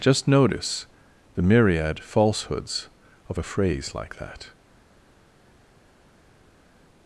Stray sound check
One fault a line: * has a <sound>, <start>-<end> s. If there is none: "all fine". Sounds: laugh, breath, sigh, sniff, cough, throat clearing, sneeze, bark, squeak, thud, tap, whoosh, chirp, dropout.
all fine